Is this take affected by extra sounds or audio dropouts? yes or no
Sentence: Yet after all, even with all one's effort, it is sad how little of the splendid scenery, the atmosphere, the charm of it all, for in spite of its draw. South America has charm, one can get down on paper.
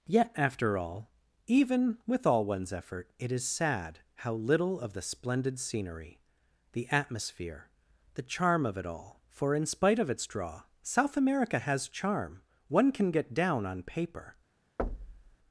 yes